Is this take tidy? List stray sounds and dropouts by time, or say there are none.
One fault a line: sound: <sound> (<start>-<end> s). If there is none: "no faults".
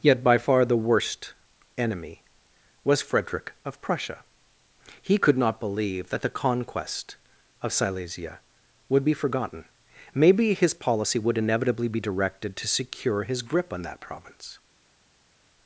no faults